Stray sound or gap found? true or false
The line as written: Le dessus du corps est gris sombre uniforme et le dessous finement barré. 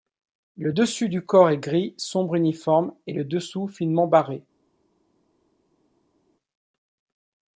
false